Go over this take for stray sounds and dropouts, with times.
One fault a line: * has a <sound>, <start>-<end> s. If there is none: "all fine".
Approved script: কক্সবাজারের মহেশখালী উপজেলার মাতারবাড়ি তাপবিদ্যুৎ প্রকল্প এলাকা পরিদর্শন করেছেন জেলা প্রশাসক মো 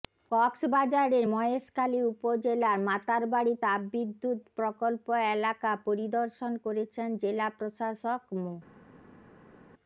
all fine